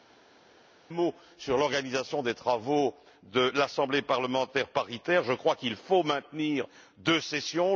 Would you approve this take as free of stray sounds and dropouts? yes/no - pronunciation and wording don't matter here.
yes